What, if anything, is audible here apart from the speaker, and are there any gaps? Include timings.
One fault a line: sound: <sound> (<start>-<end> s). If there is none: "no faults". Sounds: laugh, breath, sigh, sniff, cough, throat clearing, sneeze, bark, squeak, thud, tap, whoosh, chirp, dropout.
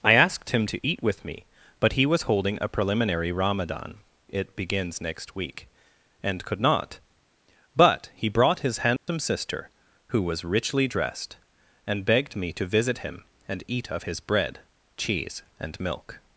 sound: dropout (9.0-9.1 s)